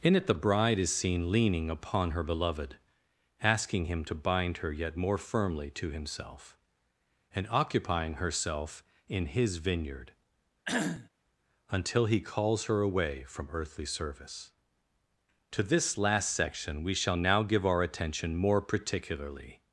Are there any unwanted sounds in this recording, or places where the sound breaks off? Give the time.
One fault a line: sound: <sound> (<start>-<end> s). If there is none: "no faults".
sound: cough (10.7-11.1 s)